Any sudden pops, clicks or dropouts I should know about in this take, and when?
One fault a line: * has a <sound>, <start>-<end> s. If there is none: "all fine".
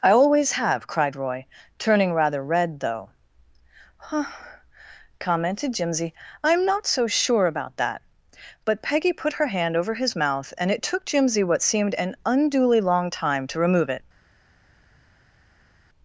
all fine